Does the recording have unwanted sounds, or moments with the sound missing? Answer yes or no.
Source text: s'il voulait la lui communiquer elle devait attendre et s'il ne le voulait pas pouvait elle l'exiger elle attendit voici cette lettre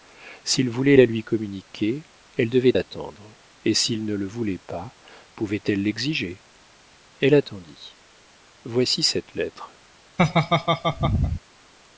yes